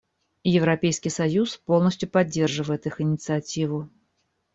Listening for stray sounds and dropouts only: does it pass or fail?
pass